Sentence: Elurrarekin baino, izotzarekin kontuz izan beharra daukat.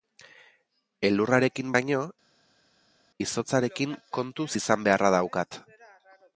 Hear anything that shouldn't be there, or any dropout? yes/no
no